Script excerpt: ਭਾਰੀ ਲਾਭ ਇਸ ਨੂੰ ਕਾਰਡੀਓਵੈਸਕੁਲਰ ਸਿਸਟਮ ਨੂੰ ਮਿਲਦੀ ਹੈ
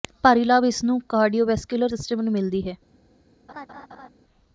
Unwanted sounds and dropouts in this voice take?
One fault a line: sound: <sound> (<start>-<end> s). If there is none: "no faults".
sound: laugh (3.5-4.1 s)